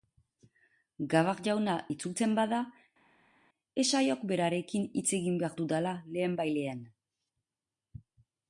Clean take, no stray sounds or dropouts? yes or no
yes